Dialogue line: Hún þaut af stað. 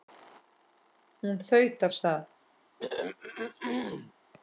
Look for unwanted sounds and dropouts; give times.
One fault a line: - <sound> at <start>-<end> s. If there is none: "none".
- throat clearing at 2.8-4.1 s